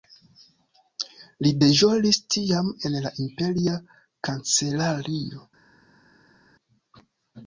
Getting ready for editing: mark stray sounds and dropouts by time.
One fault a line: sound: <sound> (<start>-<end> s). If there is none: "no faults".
no faults